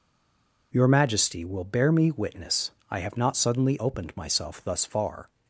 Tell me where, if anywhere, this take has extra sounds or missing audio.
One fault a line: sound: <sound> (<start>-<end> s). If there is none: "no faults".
no faults